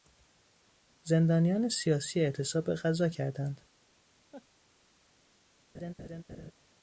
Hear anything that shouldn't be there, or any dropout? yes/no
yes